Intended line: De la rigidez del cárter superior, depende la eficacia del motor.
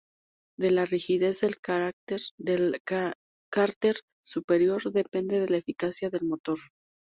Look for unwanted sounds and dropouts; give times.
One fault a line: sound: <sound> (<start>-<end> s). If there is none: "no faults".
no faults